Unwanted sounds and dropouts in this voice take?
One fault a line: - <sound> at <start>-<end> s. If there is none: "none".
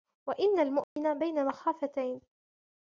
- dropout at 0.8-1.0 s